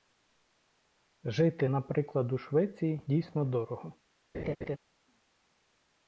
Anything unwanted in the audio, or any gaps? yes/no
yes